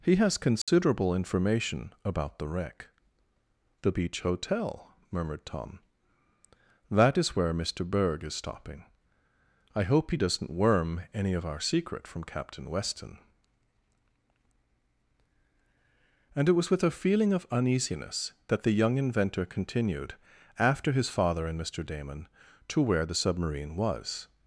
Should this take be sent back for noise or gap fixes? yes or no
yes